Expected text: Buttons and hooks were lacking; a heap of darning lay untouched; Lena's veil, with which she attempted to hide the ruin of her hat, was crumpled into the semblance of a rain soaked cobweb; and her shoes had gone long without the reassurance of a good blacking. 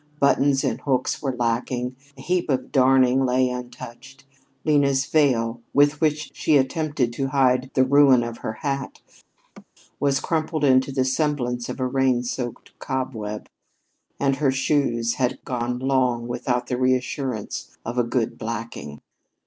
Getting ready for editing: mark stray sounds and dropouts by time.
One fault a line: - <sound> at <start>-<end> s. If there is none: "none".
- laugh at 9.4-9.7 s